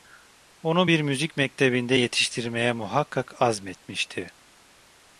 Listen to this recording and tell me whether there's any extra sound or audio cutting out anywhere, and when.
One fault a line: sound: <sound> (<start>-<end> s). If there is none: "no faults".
no faults